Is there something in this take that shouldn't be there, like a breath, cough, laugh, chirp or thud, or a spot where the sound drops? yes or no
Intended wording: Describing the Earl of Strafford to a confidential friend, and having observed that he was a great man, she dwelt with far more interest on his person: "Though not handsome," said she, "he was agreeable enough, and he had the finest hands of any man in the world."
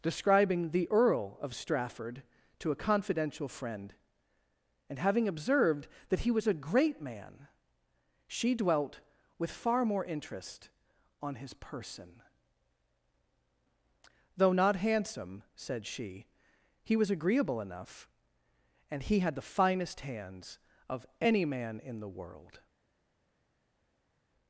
no